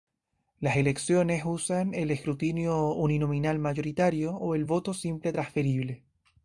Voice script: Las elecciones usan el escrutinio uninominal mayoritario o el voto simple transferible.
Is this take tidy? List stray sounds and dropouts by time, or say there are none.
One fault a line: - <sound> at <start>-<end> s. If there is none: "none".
none